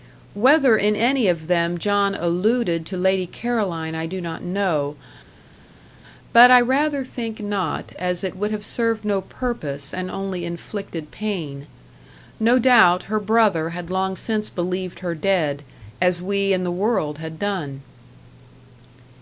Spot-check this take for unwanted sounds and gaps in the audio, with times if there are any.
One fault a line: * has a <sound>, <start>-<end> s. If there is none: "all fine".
all fine